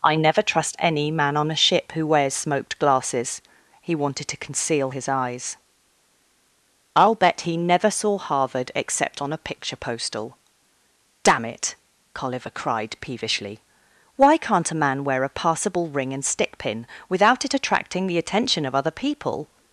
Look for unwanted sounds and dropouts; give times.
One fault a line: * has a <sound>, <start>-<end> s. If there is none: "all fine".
all fine